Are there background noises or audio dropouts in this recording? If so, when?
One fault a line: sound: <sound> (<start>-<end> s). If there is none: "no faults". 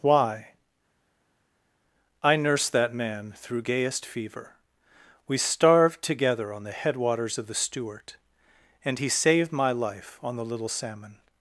no faults